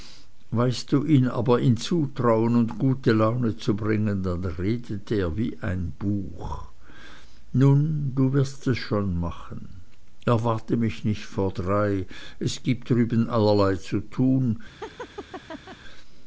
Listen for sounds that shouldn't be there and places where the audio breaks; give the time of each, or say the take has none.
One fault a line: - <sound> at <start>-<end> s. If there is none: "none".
- laugh at 14.8-15.8 s